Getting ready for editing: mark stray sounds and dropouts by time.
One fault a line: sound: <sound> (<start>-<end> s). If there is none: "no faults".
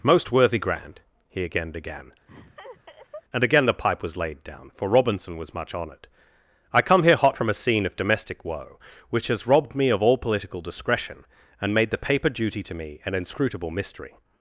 sound: laugh (2.3-3.2 s)